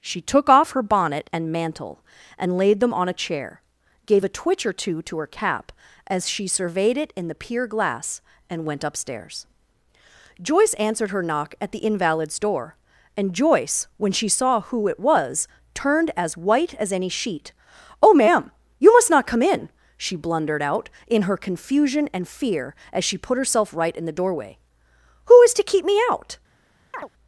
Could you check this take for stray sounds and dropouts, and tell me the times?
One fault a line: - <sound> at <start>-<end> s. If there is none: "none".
- chirp at 26.9-27.1 s